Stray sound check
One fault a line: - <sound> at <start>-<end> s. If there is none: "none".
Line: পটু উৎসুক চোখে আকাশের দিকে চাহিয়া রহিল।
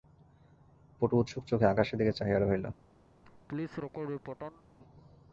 - laugh at 3.2-4.6 s